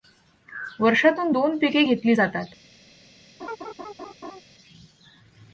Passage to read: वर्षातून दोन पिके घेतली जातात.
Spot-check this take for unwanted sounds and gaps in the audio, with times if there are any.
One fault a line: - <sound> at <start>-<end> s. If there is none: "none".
- laugh at 3.4-4.4 s